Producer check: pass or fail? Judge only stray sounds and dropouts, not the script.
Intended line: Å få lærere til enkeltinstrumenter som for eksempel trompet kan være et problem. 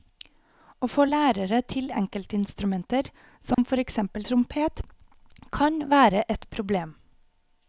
fail